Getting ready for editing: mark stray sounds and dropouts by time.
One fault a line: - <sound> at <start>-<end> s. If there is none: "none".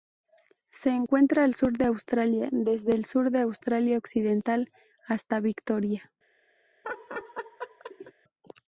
- laugh at 6.8-8.1 s